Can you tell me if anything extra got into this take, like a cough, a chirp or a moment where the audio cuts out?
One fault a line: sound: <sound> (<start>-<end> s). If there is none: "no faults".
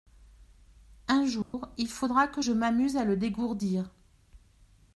sound: dropout (1.4-1.5 s)